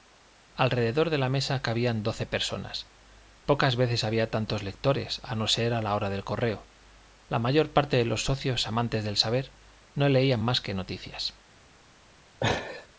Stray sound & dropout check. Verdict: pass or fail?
fail